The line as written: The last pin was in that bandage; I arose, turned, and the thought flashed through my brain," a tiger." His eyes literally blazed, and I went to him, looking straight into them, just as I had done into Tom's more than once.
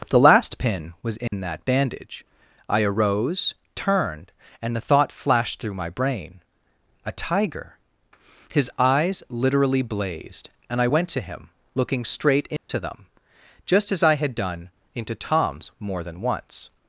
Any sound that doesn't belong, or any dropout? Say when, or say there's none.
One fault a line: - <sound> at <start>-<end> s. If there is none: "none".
- dropout at 1.3-1.3 s
- dropout at 12.6-12.7 s